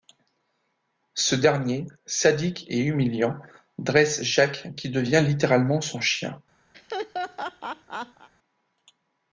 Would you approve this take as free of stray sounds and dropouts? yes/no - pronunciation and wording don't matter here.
no